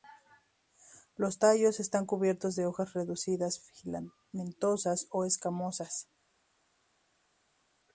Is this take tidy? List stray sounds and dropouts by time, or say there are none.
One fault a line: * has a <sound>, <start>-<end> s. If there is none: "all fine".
all fine